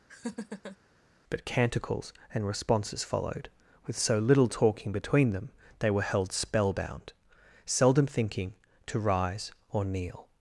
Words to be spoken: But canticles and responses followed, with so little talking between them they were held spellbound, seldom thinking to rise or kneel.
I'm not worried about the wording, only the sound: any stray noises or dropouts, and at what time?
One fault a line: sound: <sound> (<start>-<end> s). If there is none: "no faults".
sound: laugh (0.1-0.8 s)